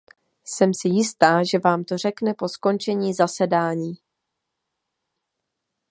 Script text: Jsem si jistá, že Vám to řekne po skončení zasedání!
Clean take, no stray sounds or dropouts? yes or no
yes